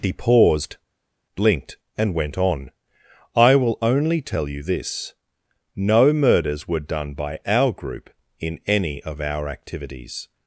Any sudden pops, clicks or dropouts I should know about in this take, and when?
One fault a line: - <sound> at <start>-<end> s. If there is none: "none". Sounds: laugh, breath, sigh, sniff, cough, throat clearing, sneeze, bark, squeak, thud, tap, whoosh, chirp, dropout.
none